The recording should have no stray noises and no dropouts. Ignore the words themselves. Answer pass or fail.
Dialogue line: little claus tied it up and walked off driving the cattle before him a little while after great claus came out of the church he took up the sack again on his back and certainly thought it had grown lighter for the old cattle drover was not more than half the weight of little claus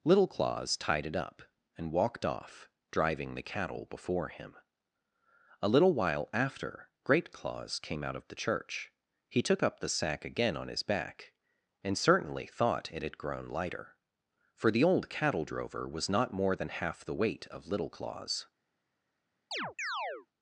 fail